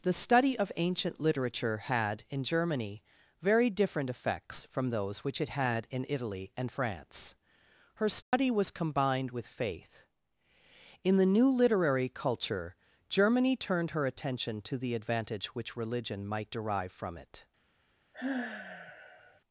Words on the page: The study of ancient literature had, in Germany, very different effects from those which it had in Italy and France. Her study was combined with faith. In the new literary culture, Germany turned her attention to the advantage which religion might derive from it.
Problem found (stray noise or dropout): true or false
true